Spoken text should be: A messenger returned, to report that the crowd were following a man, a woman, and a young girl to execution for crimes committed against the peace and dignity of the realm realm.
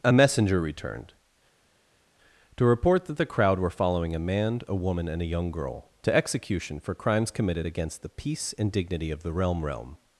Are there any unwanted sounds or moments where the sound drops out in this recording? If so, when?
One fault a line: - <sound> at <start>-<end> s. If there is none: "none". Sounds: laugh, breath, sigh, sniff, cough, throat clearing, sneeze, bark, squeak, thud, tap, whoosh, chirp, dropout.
none